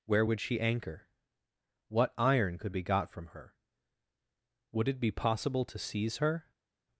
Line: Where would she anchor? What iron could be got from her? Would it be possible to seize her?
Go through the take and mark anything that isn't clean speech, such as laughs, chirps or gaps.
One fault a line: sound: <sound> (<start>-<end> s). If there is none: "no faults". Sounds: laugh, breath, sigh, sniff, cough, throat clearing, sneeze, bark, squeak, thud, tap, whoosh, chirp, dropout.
no faults